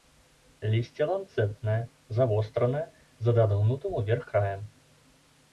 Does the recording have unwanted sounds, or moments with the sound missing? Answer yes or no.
no